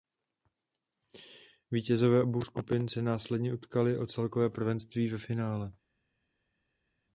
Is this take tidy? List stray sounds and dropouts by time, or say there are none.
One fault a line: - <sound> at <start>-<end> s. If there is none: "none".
none